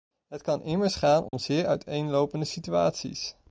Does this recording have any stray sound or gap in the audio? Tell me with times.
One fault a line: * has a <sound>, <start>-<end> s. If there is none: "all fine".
* has a dropout, 1.3-1.3 s